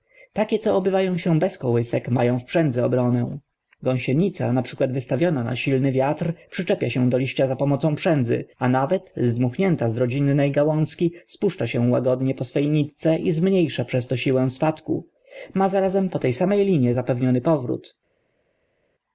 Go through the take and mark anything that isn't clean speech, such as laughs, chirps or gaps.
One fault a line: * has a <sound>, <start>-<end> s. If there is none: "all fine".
all fine